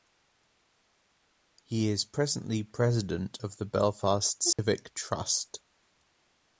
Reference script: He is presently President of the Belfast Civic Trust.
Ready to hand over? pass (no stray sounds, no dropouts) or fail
fail